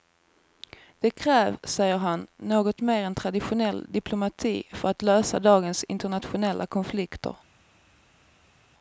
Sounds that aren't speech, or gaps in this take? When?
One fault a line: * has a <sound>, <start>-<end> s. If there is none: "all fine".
all fine